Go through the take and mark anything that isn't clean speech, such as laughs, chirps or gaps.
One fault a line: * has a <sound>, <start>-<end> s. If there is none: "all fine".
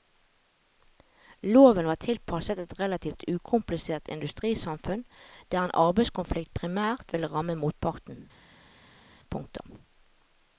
all fine